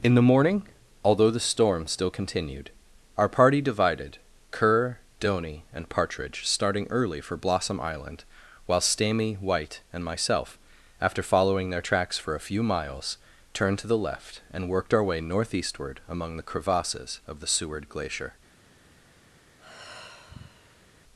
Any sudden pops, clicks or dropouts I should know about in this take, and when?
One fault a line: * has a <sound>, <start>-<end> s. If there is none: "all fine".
* has a sigh, 19.6-20.9 s